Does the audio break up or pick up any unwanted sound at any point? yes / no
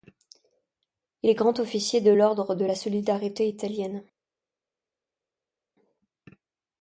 no